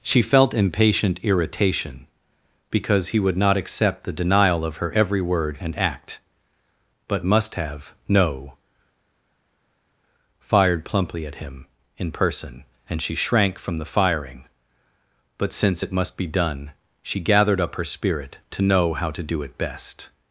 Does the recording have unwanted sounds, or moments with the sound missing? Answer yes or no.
no